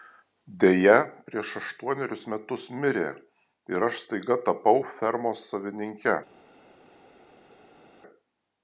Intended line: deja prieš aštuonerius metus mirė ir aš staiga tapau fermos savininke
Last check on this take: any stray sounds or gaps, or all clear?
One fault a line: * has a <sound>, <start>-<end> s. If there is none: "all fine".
all fine